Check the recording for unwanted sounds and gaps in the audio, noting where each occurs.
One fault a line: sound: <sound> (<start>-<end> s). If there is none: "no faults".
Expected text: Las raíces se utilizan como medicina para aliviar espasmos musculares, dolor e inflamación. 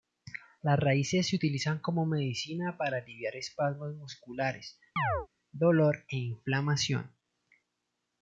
sound: chirp (5.0-5.3 s)